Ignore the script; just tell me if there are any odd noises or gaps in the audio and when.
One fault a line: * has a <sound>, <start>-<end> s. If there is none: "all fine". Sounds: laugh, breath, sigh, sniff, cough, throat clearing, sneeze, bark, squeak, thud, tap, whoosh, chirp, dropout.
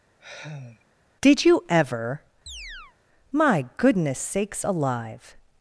* has a sigh, 0.2-0.9 s
* has a chirp, 2.5-3.0 s